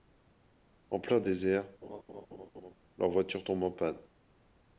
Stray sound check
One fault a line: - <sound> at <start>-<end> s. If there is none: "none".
- laugh at 1.8-2.7 s